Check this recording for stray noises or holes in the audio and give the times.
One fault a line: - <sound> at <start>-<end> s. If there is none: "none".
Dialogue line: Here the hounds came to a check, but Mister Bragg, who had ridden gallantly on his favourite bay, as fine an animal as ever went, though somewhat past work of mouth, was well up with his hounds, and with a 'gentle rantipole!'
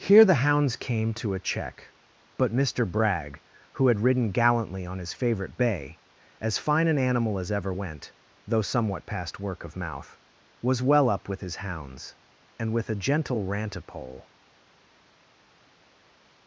none